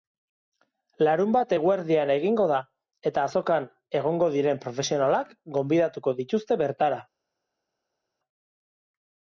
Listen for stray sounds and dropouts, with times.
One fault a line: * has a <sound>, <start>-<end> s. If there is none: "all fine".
all fine